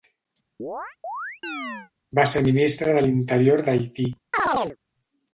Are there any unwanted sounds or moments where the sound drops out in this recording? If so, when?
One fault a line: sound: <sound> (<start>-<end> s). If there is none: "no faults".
sound: chirp (0.6-1.9 s)
sound: chirp (4.3-4.8 s)